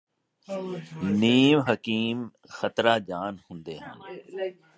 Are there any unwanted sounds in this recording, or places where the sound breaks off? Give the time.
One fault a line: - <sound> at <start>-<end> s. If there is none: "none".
none